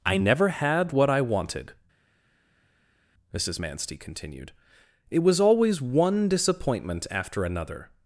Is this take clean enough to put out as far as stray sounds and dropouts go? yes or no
yes